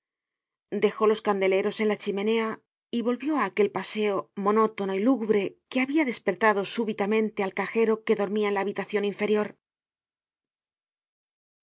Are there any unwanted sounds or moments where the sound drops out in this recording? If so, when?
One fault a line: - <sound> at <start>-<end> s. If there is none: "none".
none